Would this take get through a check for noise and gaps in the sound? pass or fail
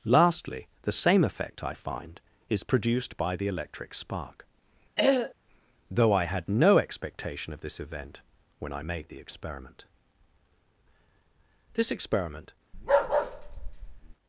fail